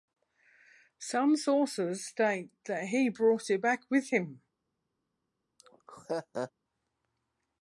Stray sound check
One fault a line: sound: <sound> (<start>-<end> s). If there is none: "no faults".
sound: laugh (5.6-6.5 s)